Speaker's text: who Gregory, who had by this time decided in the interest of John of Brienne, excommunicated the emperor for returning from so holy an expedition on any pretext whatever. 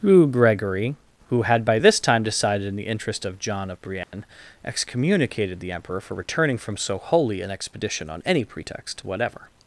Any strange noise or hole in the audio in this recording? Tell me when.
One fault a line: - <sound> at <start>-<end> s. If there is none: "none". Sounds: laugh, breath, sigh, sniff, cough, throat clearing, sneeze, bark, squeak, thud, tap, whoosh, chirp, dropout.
- dropout at 4.0-4.1 s